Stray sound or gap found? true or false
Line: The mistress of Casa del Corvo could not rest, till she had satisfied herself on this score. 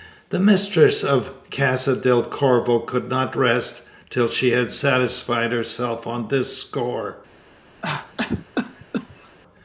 true